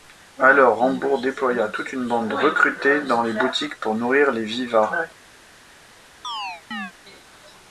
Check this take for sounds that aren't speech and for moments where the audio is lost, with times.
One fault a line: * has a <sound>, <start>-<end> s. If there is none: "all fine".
* has a chirp, 6.2-6.9 s